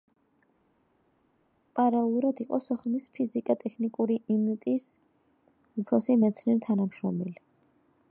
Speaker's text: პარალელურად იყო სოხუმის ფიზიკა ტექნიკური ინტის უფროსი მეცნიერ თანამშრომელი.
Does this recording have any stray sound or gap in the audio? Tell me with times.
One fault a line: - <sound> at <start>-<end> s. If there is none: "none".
none